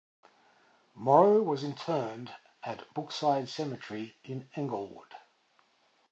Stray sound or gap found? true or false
false